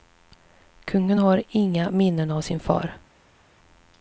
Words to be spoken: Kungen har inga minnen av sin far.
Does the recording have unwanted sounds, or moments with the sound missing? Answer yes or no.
no